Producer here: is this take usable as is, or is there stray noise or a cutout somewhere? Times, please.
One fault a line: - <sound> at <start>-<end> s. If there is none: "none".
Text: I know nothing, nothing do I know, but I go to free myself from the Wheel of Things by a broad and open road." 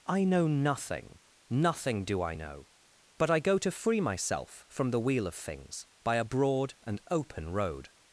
none